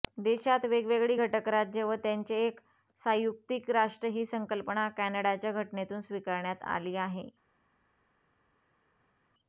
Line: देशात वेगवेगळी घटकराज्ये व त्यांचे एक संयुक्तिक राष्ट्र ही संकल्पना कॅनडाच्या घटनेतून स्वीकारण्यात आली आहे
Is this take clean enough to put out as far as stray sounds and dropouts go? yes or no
yes